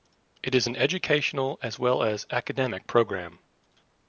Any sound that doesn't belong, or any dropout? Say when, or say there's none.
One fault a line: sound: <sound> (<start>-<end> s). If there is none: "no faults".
no faults